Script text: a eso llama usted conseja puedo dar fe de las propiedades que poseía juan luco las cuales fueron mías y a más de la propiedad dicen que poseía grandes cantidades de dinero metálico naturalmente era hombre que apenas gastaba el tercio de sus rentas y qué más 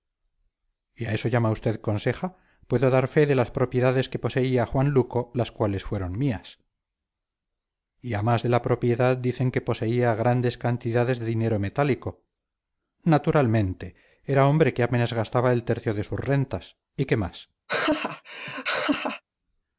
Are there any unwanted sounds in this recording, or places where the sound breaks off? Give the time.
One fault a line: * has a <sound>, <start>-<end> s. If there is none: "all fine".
* has a laugh, 17.7-19.2 s